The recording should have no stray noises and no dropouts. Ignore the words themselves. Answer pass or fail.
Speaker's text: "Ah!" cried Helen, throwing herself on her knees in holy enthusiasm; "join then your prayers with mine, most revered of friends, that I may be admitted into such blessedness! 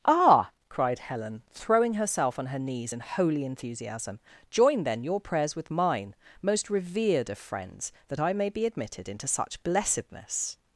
pass